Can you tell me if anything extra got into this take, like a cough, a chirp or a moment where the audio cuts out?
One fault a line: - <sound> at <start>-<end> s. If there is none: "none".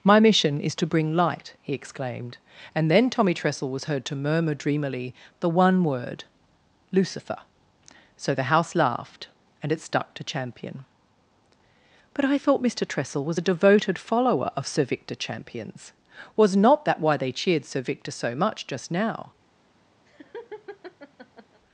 - laugh at 20.1-21.6 s